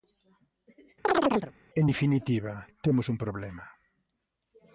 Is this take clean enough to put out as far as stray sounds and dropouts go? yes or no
no